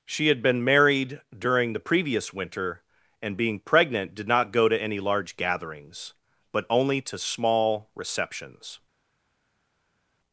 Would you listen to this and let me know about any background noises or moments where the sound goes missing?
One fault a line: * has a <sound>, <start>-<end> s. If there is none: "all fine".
all fine